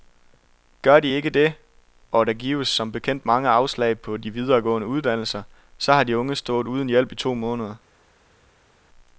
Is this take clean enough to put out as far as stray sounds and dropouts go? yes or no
yes